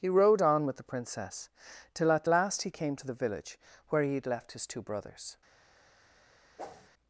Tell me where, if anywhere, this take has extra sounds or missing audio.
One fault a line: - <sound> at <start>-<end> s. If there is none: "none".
- whoosh at 6.6-6.9 s